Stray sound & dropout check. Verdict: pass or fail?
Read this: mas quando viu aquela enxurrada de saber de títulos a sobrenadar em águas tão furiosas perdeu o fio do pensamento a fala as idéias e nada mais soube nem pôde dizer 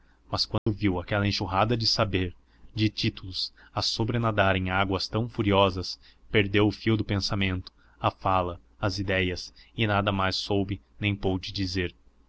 fail